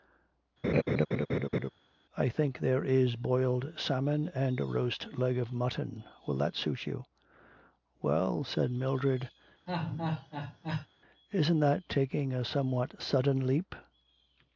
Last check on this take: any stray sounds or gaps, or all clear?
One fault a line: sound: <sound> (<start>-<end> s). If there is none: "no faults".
sound: laugh (0.6-1.7 s)
sound: laugh (9.7-10.9 s)